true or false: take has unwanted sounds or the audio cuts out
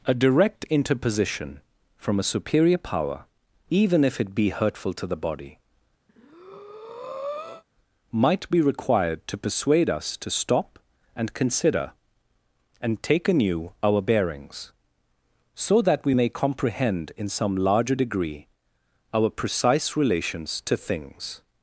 true